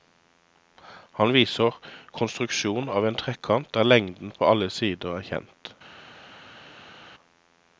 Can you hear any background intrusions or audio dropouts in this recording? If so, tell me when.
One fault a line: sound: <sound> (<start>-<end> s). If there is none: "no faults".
no faults